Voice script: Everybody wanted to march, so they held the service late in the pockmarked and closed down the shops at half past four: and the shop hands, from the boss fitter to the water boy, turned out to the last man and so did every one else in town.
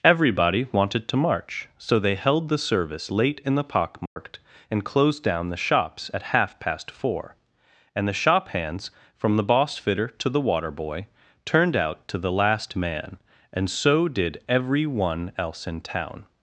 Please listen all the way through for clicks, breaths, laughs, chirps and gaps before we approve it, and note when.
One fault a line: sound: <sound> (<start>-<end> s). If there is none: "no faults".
sound: dropout (4.1-4.2 s)